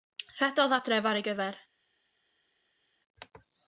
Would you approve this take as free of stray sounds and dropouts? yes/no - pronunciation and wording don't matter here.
yes